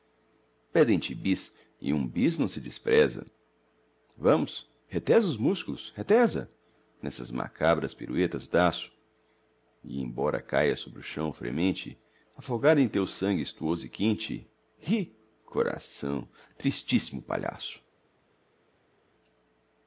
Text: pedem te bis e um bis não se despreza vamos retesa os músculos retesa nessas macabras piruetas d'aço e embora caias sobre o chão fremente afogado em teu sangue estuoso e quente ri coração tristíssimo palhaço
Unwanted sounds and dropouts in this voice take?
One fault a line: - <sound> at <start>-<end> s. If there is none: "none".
none